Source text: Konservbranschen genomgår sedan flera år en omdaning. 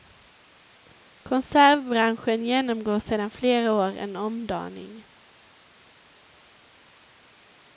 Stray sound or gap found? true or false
false